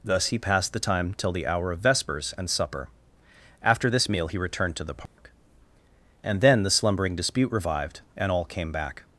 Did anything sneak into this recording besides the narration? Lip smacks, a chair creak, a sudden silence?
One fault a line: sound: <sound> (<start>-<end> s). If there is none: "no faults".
sound: dropout (5.1-5.2 s)